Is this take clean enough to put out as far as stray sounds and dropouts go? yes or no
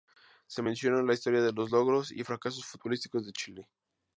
yes